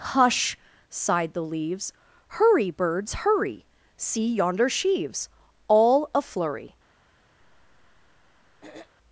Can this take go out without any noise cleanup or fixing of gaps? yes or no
no